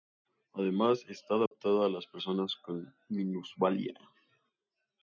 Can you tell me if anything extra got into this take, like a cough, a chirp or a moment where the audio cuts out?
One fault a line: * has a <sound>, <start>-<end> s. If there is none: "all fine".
* has a dropout, 1.5-1.5 s